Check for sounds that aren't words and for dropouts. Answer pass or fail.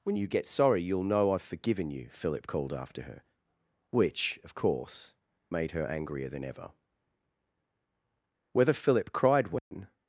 fail